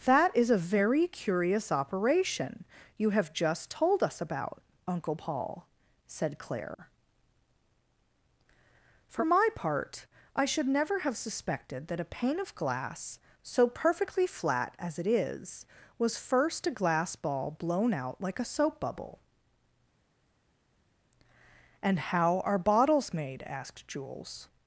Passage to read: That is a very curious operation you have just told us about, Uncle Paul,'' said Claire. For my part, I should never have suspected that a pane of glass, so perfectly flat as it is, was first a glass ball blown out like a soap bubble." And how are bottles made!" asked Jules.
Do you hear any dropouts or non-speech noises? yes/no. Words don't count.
no